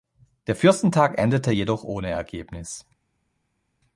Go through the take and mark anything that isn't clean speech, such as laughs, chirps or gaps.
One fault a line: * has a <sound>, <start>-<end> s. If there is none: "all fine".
all fine